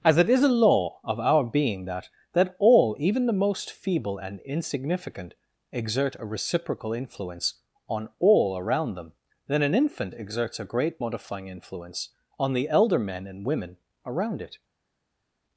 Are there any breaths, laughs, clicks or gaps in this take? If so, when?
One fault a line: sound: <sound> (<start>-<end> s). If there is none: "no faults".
no faults